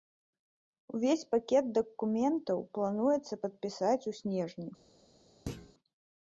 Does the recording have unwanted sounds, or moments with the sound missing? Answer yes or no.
yes